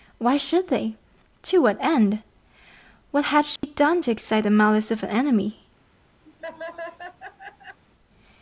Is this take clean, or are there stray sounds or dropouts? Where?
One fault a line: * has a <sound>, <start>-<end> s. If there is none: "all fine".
* has a dropout, 3.6-3.6 s
* has a laugh, 6.2-7.8 s